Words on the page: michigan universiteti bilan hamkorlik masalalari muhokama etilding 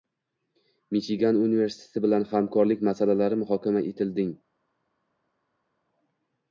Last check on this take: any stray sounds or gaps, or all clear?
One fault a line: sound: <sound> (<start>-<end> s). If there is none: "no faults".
no faults